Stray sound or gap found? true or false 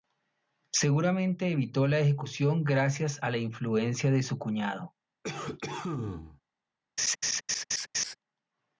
true